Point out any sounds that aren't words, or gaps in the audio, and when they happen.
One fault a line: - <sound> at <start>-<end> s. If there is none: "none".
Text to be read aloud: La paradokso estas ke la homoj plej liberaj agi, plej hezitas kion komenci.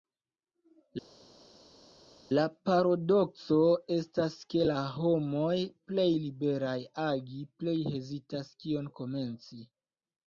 none